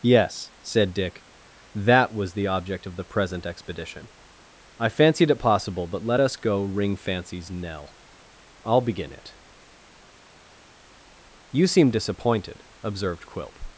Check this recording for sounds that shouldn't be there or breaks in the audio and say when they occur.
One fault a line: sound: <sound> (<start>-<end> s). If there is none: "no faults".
no faults